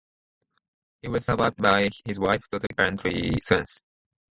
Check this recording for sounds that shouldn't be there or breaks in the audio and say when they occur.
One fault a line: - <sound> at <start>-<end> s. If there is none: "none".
- dropout at 2.7-2.7 s